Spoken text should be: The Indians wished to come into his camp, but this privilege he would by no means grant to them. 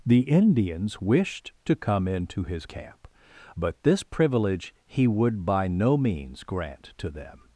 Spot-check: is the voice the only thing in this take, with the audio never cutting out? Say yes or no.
yes